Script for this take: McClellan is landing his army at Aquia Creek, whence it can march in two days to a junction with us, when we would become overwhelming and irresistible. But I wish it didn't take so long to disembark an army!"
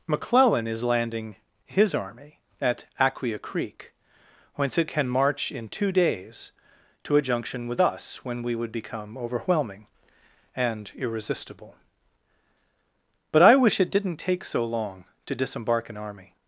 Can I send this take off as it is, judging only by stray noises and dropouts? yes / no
yes